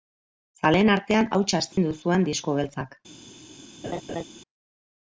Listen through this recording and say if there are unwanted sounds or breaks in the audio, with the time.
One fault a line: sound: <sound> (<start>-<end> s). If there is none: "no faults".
sound: dropout (1.7-1.8 s)
sound: laugh (3.8-4.2 s)